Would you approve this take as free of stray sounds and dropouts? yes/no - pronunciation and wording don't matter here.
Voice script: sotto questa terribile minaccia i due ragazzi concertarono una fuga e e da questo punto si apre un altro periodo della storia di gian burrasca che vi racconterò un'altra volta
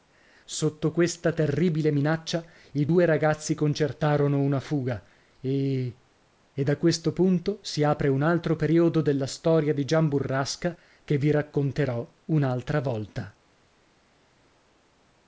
yes